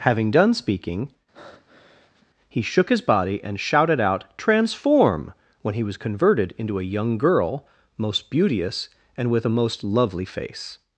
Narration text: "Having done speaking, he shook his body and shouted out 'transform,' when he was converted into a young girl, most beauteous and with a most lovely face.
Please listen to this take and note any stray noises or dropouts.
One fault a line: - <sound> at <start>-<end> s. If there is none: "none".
- breath at 1.3-2.3 s